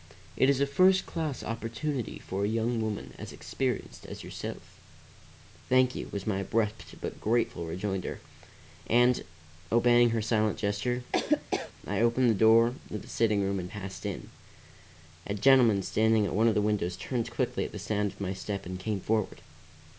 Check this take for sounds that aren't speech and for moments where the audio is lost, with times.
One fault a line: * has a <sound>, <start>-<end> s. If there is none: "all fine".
* has a laugh, 11.1-11.7 s